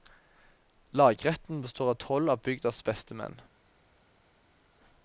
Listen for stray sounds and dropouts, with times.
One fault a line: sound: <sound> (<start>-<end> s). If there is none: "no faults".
no faults